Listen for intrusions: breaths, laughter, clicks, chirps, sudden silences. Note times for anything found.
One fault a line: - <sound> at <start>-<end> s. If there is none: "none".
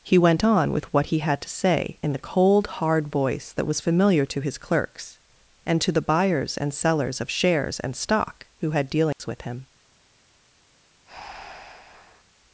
- dropout at 9.1-9.2 s
- breath at 11.1-12.2 s